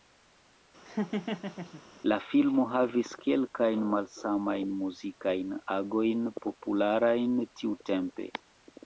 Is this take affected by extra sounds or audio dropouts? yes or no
yes